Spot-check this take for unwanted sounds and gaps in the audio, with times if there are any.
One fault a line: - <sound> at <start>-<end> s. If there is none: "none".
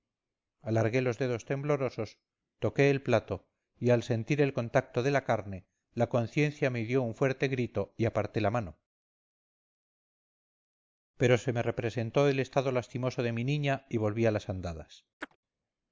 - chirp at 15.2-15.4 s